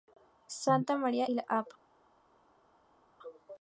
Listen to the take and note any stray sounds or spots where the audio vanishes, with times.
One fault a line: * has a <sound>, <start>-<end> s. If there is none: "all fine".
all fine